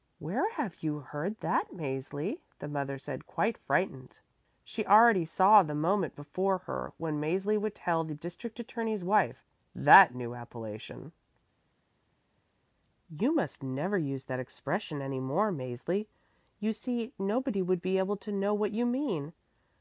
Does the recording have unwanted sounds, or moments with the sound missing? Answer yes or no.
no